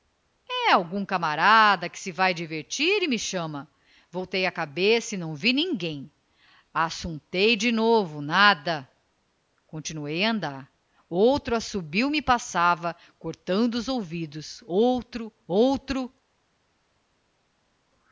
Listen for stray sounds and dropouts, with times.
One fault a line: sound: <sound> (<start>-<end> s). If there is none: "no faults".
no faults